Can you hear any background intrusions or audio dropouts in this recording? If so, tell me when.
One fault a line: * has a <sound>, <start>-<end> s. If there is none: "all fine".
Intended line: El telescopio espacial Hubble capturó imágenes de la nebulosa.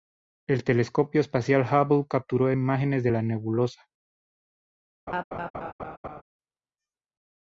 * has a laugh, 5.1-6.2 s